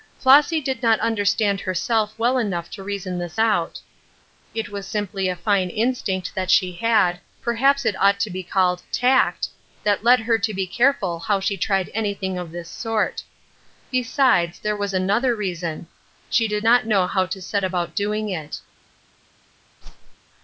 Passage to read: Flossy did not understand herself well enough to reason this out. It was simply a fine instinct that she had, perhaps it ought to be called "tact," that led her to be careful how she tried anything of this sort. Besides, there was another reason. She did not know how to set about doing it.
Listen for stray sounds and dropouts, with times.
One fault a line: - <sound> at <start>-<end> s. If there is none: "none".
- whoosh at 19.8-20.2 s